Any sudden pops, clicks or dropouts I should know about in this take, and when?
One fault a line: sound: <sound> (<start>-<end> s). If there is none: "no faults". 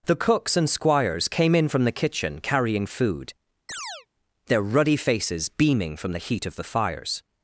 sound: chirp (3.7-4.1 s)